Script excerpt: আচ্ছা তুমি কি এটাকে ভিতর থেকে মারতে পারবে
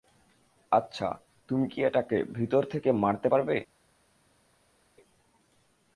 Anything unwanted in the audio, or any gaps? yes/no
no